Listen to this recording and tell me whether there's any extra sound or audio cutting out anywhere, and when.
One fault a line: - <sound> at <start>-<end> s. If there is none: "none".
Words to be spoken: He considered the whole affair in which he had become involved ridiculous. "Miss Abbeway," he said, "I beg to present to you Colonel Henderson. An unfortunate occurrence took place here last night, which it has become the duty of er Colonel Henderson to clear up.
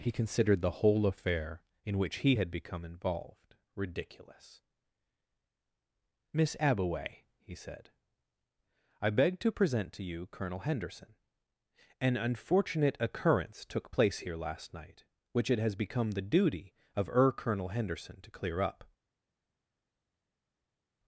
none